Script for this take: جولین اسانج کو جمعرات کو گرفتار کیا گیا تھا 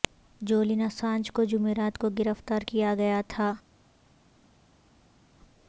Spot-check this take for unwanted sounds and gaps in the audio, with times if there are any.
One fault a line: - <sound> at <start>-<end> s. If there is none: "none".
none